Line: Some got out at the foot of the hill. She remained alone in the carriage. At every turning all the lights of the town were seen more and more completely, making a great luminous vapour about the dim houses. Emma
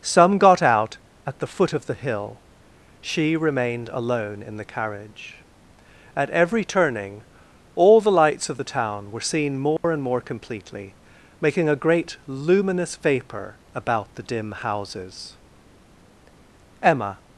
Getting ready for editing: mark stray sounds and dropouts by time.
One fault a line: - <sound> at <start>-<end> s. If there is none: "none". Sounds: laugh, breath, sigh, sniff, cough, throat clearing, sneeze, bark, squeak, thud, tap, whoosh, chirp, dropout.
- dropout at 9.8-9.8 s